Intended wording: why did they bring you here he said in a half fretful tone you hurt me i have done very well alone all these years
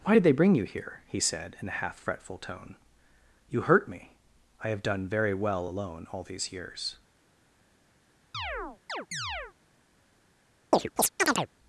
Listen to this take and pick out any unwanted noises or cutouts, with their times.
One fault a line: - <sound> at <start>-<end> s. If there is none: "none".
- chirp at 8.3-9.5 s
- chirp at 10.7-11.5 s